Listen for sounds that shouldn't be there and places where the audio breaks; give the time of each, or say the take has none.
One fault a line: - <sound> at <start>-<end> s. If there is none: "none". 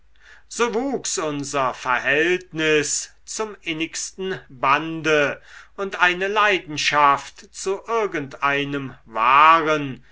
none